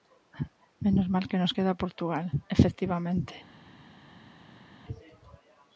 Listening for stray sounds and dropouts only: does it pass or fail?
pass